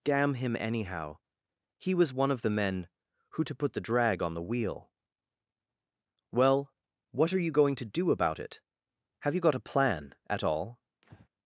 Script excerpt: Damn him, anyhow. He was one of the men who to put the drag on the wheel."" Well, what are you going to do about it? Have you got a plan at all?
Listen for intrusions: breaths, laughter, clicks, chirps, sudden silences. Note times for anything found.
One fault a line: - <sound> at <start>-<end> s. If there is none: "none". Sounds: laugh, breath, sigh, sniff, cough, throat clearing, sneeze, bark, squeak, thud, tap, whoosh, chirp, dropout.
- breath at 11.0-11.3 s